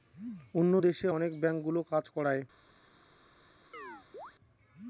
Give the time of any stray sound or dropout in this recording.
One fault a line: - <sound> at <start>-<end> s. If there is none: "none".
- chirp at 3.7-4.3 s